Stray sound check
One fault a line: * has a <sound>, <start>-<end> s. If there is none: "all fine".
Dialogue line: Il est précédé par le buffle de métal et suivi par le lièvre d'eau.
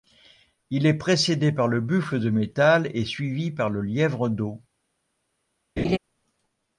* has a laugh, 5.8-6.0 s